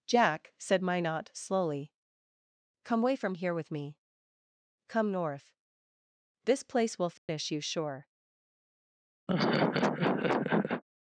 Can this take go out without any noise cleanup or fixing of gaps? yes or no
no